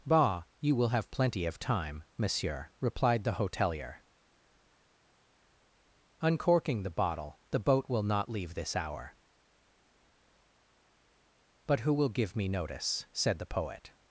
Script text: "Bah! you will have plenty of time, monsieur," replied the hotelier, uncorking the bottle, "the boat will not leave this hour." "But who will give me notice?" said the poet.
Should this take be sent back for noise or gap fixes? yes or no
no